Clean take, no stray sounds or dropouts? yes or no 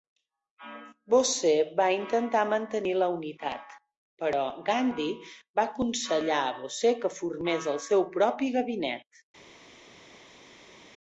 yes